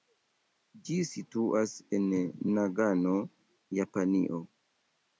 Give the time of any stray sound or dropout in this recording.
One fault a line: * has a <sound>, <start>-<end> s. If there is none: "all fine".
all fine